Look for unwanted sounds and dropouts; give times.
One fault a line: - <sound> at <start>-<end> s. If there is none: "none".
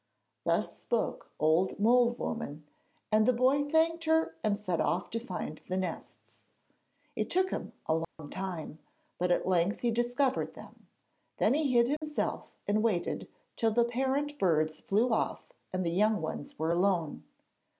- dropout at 8.0-8.2 s
- dropout at 12.0-12.0 s